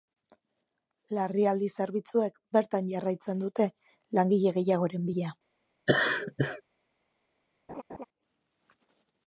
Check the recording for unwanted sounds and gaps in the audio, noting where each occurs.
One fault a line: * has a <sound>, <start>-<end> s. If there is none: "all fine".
* has a laugh, 5.9-6.6 s
* has a laugh, 7.7-8.0 s